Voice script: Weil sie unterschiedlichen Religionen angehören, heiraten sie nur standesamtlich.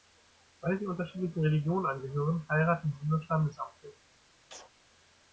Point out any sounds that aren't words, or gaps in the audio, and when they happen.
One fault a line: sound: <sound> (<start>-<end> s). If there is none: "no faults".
sound: sneeze (4.5-4.7 s)